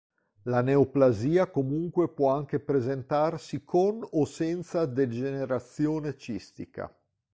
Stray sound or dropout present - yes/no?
no